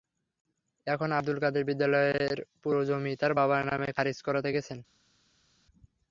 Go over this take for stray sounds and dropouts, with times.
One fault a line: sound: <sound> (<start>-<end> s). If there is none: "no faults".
no faults